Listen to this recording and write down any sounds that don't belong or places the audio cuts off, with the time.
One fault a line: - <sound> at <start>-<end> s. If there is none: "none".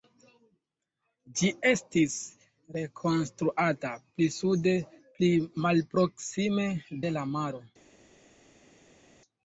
none